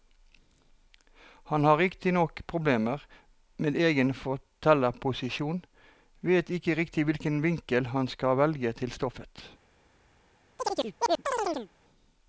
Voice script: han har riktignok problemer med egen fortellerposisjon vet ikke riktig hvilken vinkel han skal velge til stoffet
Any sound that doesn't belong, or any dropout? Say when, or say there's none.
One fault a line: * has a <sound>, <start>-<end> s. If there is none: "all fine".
* has a chirp, 10.6-11.7 s